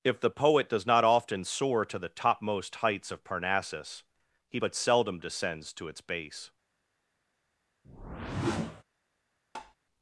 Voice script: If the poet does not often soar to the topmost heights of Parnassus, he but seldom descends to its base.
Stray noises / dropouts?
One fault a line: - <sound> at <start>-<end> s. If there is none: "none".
- whoosh at 7.8-8.8 s
- tap at 9.6-9.8 s